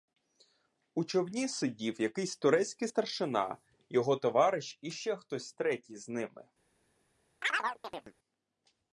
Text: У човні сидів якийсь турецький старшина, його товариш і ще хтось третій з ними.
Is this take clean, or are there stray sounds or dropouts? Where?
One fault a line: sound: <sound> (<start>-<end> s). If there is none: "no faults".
sound: chirp (7.4-8.1 s)